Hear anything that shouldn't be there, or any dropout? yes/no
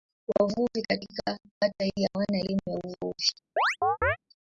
yes